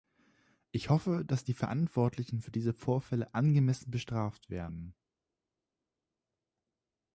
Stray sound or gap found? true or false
false